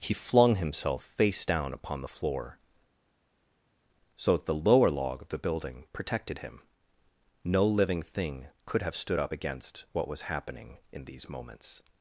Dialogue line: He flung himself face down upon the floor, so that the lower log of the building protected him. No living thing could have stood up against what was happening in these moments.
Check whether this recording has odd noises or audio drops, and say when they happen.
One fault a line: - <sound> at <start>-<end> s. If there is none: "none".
none